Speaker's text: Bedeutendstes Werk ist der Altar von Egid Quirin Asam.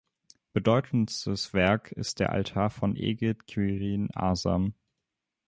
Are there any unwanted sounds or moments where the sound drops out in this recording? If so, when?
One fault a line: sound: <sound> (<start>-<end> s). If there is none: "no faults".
no faults